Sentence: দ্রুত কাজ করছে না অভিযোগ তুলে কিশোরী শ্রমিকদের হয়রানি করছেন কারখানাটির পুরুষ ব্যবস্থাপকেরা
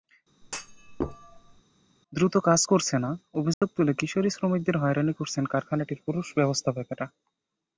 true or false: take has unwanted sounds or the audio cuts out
true